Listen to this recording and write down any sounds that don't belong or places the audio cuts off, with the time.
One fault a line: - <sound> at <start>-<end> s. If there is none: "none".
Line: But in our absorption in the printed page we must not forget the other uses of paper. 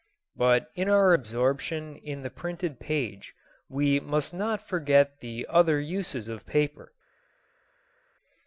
none